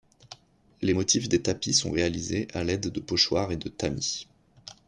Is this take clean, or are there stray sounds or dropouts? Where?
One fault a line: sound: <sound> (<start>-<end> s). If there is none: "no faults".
no faults